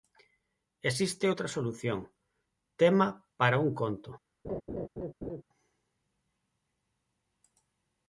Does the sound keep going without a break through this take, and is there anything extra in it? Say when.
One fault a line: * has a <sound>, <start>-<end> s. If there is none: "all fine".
* has a laugh, 4.4-5.4 s